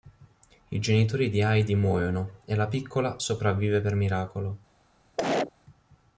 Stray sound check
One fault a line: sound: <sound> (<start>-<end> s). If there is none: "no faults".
sound: cough (5.2-5.5 s)